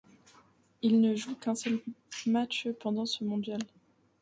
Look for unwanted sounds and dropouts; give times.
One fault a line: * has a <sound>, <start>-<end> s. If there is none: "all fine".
all fine